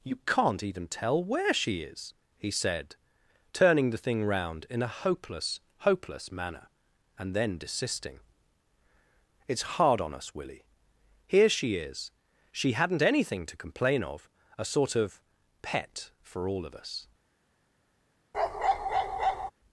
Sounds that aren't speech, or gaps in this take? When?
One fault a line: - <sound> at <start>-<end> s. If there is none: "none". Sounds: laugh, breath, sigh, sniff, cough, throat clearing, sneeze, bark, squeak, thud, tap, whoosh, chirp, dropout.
- bark at 18.3-19.5 s